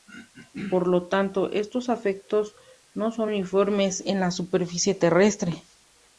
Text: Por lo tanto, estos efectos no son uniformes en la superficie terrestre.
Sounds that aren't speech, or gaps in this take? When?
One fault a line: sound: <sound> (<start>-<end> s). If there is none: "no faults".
no faults